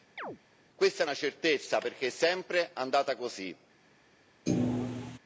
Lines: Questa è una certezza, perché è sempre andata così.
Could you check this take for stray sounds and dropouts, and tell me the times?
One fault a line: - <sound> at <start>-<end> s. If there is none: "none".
- chirp at 0.2-0.4 s
- thud at 4.5-5.2 s